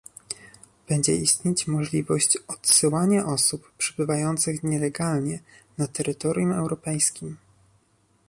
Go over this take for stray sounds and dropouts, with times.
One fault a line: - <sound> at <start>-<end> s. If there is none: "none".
none